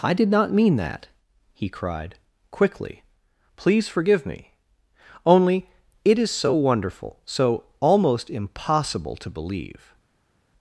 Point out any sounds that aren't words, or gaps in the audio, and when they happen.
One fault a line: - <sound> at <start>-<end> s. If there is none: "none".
none